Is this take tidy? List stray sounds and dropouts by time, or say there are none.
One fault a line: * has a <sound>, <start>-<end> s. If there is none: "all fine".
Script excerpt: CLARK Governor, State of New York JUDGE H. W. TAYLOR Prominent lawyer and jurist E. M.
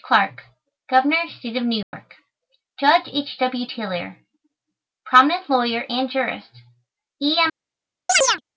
* has a dropout, 1.8-1.9 s
* has a chirp, 8.1-8.4 s